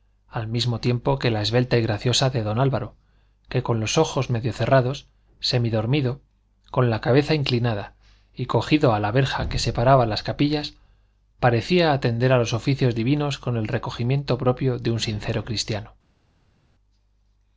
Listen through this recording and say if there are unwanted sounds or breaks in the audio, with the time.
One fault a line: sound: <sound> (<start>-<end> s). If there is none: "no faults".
no faults